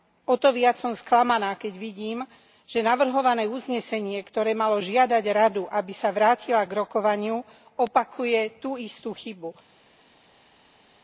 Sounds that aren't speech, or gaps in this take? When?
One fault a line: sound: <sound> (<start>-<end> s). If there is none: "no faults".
no faults